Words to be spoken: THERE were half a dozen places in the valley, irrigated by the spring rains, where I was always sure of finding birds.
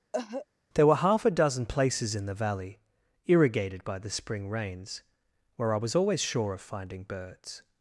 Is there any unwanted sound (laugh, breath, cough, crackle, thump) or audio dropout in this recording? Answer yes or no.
yes